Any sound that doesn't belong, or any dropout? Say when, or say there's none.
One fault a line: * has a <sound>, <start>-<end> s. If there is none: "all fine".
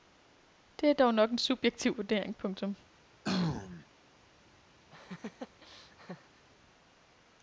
* has a throat clearing, 3.2-3.9 s
* has a laugh, 4.9-6.5 s